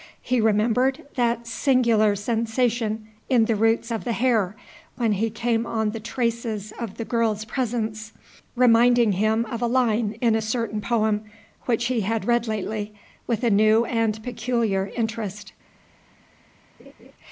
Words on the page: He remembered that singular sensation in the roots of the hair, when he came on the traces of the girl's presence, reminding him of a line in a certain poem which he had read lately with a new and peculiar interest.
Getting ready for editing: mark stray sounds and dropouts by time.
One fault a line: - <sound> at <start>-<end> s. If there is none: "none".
- laugh at 16.8-17.1 s